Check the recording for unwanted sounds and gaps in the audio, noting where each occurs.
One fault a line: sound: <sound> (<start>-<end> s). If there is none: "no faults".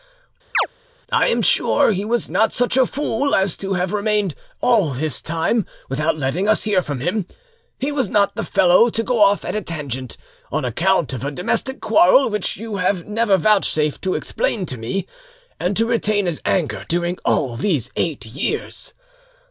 sound: chirp (0.5-0.7 s)